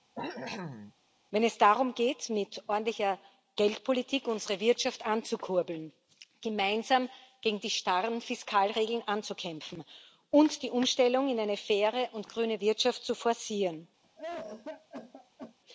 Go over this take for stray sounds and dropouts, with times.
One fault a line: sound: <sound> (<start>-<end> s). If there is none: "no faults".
sound: cough (0.1-0.9 s)
sound: cough (14.0-15.6 s)